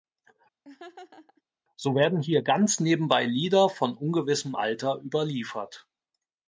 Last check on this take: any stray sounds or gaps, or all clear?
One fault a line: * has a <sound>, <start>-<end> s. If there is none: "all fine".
* has a laugh, 0.6-1.4 s